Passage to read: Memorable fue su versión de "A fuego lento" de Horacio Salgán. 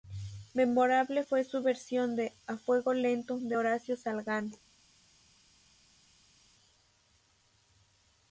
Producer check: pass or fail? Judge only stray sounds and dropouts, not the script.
pass